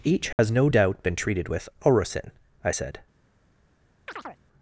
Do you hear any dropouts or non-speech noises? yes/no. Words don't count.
yes